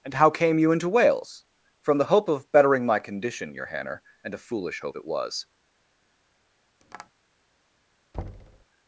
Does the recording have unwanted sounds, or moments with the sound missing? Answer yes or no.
yes